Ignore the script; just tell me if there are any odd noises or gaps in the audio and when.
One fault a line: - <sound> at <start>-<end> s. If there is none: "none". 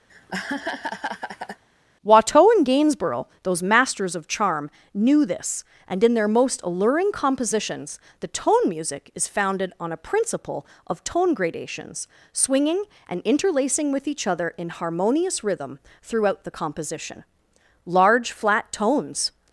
- laugh at 0.1-1.6 s